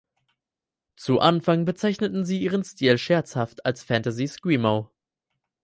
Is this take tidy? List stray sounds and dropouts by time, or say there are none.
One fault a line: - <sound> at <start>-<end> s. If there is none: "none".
none